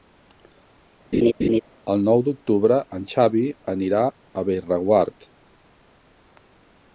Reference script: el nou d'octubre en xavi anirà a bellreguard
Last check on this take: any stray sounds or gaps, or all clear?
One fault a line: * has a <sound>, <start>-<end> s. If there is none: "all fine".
* has a laugh, 1.1-1.6 s